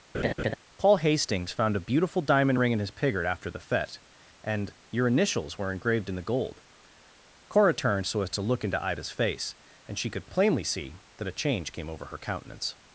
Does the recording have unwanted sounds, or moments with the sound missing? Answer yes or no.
yes